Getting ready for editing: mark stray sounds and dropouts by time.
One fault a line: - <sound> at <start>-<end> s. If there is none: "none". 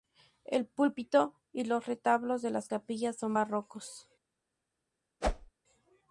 - whoosh at 5.2-5.5 s